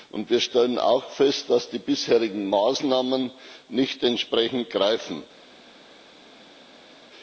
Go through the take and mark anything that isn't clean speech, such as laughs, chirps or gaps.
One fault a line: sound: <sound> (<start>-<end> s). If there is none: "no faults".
no faults